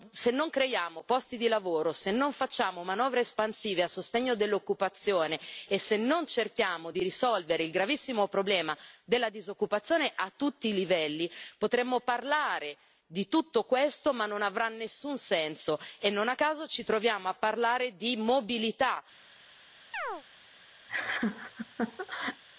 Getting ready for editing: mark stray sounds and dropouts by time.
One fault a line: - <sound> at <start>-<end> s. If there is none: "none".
- chirp at 19.9-20.2 s
- laugh at 20.9-22.4 s